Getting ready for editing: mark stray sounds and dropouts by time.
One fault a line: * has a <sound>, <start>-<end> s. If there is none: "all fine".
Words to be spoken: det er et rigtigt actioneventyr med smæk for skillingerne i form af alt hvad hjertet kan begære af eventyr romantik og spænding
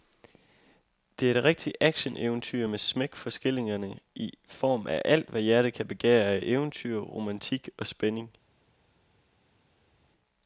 all fine